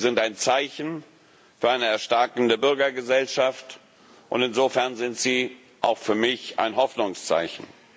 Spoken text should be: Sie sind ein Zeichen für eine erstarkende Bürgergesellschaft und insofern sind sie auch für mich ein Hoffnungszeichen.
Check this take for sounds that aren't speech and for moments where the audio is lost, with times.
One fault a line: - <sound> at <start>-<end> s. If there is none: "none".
none